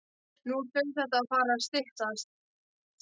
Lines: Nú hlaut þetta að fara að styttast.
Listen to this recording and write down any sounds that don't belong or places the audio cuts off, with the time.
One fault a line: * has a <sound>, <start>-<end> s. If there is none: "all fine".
all fine